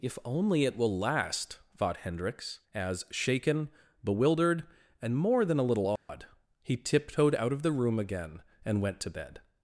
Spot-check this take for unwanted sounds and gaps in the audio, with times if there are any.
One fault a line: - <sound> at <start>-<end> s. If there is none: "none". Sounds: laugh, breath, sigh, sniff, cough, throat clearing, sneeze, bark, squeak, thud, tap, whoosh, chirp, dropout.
- dropout at 6.0-6.1 s